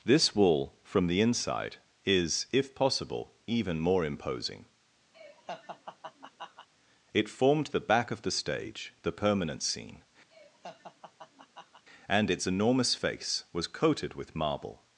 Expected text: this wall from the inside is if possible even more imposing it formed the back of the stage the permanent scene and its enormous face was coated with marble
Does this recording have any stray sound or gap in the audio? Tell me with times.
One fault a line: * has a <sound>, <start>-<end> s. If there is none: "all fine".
* has a laugh, 5.1-6.7 s
* has a laugh, 10.3-11.8 s